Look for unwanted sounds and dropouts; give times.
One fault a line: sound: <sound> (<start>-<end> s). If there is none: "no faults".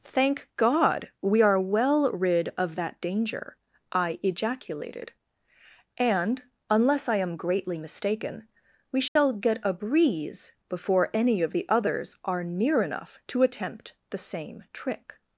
sound: dropout (9.1-9.2 s)